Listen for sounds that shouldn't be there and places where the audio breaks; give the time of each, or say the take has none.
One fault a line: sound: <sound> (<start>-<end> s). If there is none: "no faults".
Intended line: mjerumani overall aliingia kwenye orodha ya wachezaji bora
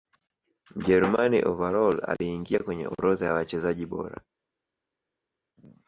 no faults